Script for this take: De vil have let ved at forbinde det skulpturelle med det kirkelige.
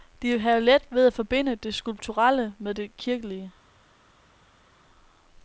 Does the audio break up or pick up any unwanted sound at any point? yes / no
no